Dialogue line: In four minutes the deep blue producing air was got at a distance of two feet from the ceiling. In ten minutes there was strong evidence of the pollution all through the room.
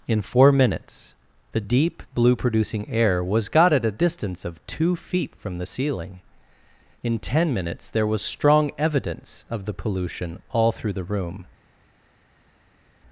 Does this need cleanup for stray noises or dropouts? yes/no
no